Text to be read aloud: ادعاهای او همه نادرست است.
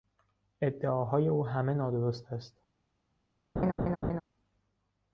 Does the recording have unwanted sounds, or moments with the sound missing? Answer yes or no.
yes